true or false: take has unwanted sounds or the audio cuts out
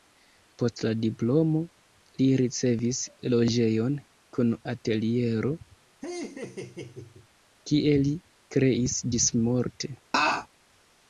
true